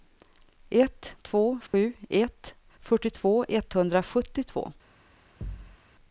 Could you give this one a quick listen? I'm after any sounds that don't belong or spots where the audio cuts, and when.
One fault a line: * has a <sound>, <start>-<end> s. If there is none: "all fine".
* has a dropout, 1.7-1.7 s
* has a thud, 5.4-5.8 s